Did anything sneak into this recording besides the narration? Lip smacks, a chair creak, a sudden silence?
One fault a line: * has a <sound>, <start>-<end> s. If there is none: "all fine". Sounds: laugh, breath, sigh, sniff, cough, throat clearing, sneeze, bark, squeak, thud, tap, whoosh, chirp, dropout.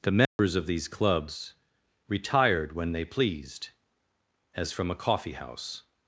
* has a dropout, 0.3-0.4 s